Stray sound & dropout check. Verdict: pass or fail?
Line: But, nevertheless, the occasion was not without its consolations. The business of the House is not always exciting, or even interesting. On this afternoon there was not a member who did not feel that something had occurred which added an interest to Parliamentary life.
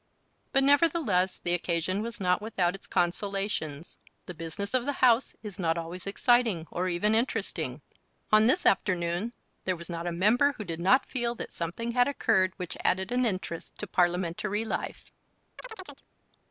fail